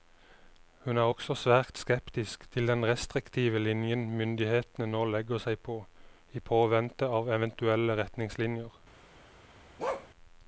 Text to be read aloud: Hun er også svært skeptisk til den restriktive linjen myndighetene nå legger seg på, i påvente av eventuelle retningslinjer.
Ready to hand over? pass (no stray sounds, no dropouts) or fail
fail